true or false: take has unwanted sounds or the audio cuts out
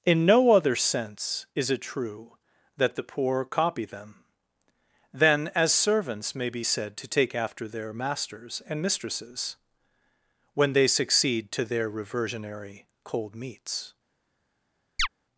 true